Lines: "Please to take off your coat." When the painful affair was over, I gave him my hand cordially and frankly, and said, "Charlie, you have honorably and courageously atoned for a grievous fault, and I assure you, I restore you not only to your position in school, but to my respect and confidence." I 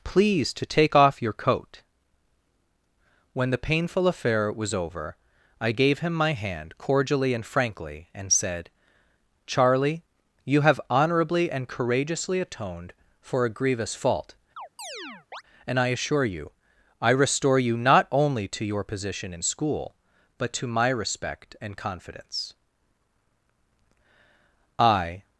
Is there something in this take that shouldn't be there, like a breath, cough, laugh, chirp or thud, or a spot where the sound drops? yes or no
yes